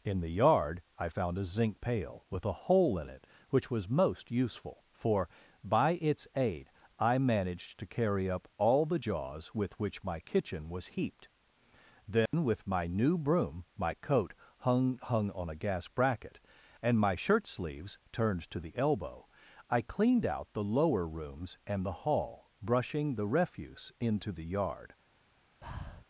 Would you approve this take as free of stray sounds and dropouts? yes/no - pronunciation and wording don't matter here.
no